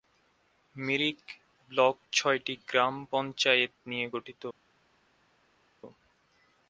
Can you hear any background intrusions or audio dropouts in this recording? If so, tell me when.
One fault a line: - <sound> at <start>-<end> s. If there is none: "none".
none